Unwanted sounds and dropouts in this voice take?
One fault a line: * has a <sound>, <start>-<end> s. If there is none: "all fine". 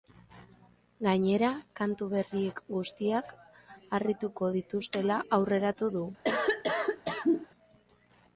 * has a cough, 6.2-7.5 s